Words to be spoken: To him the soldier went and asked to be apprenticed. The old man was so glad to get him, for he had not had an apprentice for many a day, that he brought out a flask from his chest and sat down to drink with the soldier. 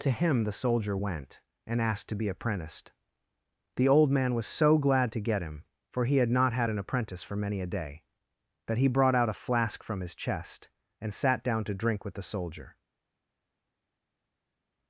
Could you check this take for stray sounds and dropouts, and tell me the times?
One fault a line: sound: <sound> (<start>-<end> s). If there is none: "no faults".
no faults